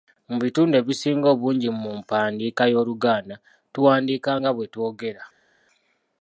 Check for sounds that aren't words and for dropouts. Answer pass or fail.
pass